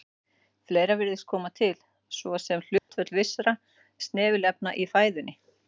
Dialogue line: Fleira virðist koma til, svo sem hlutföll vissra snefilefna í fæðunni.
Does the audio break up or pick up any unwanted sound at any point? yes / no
yes